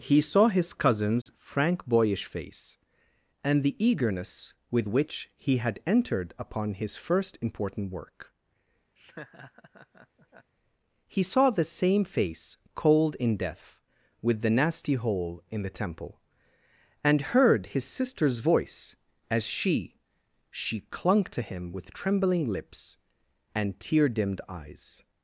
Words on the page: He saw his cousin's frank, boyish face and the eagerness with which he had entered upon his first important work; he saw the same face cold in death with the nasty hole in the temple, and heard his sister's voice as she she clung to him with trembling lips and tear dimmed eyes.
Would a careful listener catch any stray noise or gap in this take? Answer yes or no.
yes